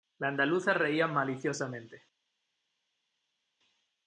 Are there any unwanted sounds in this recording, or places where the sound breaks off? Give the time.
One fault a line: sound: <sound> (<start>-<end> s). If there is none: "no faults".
no faults